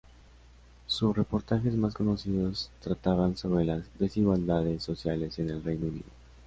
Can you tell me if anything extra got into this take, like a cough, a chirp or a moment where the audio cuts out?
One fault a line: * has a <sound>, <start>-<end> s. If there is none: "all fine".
all fine